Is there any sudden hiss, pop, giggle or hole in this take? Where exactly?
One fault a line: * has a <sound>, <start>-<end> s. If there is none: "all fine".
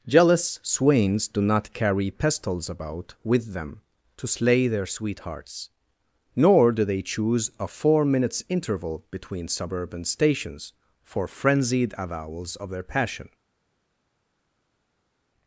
all fine